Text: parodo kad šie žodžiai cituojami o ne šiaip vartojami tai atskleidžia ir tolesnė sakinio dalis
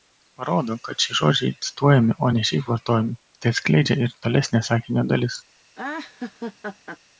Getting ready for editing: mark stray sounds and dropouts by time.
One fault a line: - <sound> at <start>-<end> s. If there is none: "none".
- laugh at 5.7-7.0 s